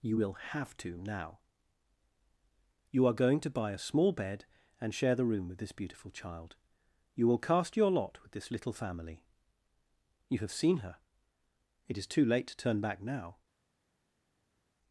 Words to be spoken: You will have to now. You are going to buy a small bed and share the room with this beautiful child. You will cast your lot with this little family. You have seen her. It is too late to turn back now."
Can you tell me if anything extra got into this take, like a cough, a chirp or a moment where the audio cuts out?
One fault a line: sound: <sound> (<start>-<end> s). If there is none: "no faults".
no faults